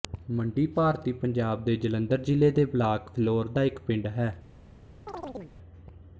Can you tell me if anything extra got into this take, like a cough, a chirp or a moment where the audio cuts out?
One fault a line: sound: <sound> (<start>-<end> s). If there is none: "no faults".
sound: chirp (5.1-5.6 s)